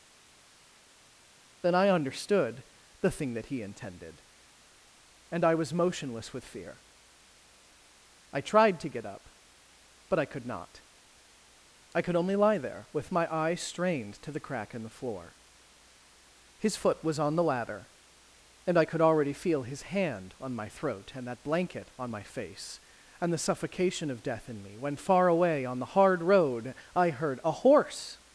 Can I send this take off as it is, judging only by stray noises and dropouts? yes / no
yes